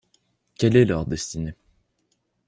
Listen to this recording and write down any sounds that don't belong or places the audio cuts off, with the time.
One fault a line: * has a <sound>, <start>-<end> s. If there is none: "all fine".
all fine